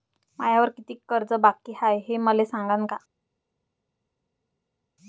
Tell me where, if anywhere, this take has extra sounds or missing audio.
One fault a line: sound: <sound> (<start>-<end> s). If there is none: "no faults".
no faults